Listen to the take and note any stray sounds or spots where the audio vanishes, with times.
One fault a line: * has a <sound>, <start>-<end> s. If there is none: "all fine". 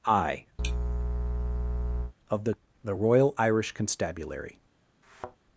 * has a sneeze, 0.6-2.1 s
* has a thud, 5.0-5.4 s